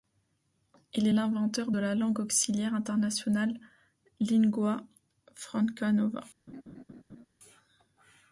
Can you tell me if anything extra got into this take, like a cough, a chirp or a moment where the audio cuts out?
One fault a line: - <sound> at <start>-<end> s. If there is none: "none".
- laugh at 6.5-7.3 s